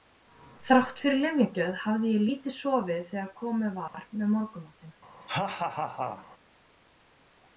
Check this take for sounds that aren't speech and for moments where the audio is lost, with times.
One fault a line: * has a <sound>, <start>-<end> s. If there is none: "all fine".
* has a dropout, 3.9-3.9 s
* has a laugh, 5.2-6.3 s